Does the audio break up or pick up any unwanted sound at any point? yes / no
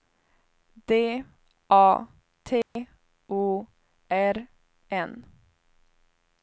yes